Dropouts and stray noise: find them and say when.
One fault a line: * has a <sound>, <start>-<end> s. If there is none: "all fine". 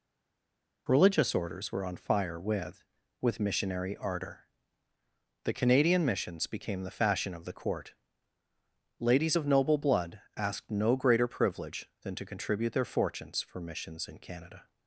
all fine